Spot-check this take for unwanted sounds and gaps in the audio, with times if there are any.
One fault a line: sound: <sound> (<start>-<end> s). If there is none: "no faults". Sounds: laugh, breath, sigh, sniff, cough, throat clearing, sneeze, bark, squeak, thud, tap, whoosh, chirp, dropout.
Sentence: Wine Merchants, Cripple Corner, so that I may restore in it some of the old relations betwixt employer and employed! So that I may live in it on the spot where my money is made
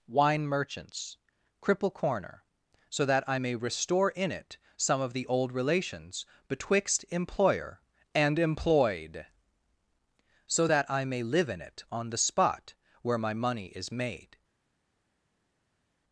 no faults